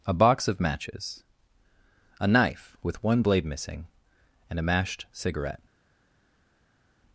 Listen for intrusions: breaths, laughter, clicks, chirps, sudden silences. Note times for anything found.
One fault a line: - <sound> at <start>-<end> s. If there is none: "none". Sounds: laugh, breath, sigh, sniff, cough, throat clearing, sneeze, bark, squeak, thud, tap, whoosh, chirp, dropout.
none